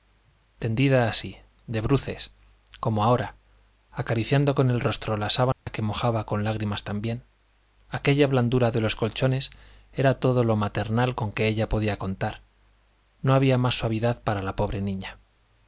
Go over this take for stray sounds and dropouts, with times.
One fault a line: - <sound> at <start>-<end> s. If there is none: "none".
- dropout at 5.5-5.7 s